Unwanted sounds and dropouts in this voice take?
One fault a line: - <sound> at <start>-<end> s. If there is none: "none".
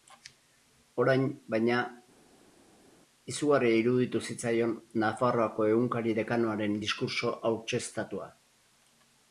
none